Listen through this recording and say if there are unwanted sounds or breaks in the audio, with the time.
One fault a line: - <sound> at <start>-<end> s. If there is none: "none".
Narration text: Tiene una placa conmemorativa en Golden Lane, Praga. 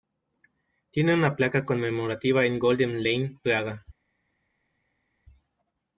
none